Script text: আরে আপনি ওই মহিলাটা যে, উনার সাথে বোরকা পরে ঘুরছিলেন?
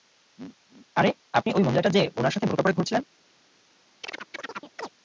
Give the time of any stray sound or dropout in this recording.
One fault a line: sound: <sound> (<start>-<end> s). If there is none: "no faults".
sound: chirp (4.0-4.9 s)